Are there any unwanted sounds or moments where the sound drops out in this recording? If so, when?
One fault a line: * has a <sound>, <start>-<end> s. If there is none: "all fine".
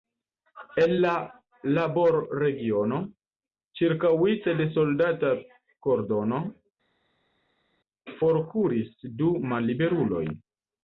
all fine